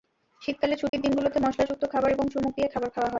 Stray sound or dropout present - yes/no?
yes